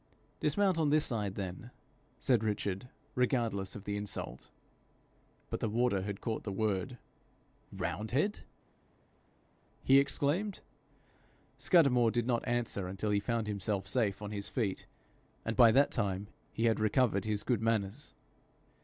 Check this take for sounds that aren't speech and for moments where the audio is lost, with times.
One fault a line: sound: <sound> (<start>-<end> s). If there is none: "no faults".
no faults